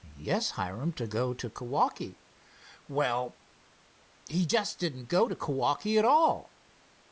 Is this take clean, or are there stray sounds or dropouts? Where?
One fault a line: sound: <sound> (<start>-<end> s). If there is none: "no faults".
no faults